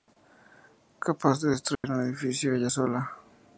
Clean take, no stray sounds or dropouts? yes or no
no